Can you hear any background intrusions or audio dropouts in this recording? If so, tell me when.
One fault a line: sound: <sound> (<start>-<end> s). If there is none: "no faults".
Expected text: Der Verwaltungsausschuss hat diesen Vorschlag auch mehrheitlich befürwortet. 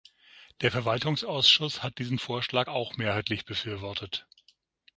no faults